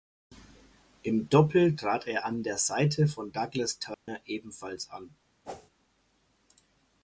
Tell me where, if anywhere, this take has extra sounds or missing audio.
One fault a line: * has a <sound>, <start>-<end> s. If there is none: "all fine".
* has a dropout, 3.9-4.1 s
* has a whoosh, 5.4-5.7 s